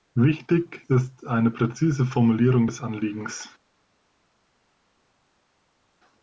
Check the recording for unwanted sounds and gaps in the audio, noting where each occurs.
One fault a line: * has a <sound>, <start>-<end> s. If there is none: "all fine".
all fine